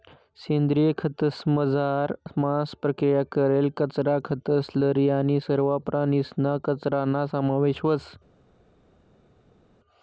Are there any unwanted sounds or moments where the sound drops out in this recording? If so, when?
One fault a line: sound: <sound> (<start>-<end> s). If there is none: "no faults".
no faults